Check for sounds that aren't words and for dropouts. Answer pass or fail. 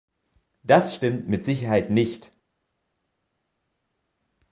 pass